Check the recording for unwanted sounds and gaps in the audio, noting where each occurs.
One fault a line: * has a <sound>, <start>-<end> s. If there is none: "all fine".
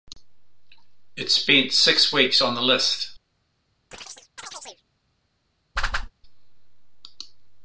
* has a chirp, 3.9-4.8 s
* has a whoosh, 5.8-6.1 s